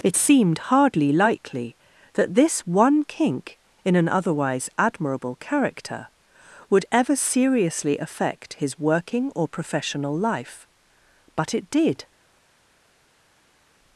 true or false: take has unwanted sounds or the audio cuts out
false